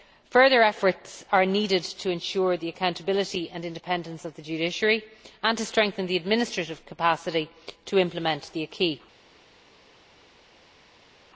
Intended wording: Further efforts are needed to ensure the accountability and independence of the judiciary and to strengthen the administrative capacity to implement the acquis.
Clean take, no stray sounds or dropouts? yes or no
yes